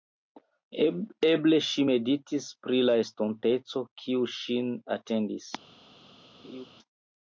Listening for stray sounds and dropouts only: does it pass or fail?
fail